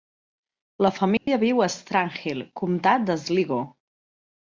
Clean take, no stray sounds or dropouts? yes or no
no